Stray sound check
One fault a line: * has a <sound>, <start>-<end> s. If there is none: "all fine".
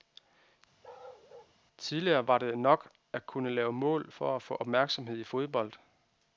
* has a bark, 0.8-1.6 s